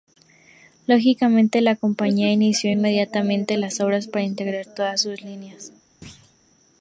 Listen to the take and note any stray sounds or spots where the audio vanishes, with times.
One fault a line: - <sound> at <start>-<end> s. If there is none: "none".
- thud at 6.0-6.4 s